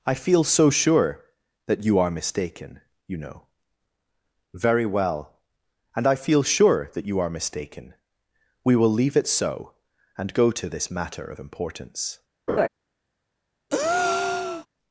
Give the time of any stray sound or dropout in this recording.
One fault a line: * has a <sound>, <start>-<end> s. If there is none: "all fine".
* has a laugh, 12.5-12.7 s
* has a breath, 13.7-14.7 s